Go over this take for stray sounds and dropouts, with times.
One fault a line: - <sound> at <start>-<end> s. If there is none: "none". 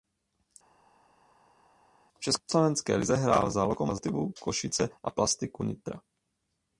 none